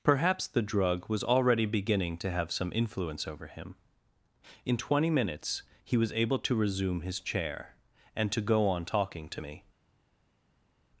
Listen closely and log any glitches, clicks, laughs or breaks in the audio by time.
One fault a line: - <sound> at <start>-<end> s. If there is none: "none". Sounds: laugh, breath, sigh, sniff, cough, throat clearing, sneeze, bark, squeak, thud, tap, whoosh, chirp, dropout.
none